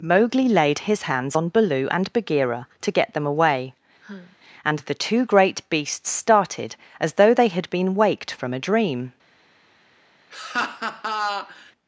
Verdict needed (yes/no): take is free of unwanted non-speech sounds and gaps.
no